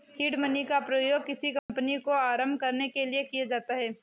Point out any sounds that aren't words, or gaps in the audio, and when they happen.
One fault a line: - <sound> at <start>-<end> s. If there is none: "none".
- dropout at 1.6-1.7 s